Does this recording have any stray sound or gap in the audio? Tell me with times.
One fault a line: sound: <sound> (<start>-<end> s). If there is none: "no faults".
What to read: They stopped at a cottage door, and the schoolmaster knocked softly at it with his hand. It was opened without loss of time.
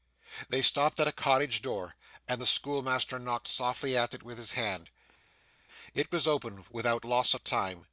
no faults